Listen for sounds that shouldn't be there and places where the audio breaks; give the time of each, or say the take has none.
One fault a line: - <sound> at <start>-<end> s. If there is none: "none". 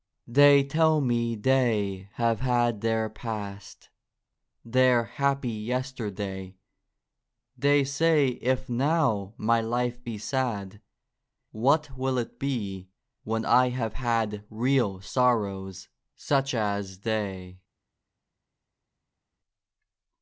none